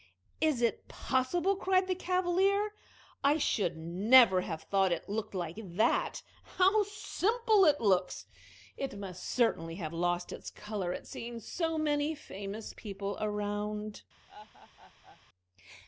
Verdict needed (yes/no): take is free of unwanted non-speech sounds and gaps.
no